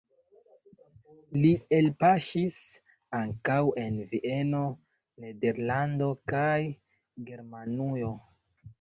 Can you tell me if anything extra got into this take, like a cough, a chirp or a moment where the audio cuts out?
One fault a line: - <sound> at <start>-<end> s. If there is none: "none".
none